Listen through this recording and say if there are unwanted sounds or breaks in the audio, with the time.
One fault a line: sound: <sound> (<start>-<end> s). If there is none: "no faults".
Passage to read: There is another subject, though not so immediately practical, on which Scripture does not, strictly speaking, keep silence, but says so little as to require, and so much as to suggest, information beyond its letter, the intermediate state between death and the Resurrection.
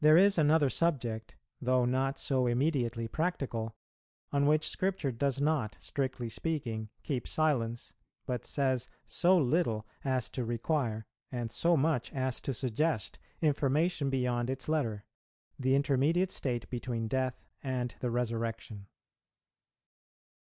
no faults